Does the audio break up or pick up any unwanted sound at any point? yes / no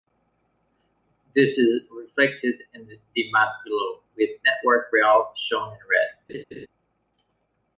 yes